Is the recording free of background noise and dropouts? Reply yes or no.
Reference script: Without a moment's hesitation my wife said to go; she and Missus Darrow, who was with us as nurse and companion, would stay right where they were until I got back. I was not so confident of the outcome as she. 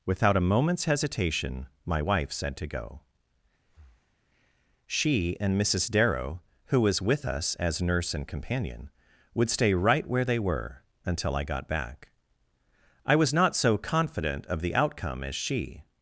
no